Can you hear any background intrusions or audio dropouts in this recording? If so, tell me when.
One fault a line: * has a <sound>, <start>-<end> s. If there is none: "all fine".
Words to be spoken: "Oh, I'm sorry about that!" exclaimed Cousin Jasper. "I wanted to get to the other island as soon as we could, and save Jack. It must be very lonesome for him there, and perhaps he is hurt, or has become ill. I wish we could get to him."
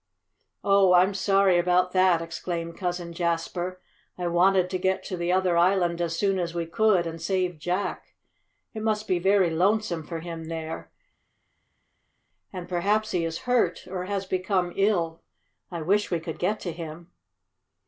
all fine